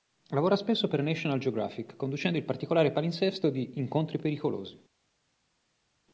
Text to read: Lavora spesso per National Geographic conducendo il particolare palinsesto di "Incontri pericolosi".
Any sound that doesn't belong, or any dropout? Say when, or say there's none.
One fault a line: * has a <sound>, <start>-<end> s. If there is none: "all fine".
all fine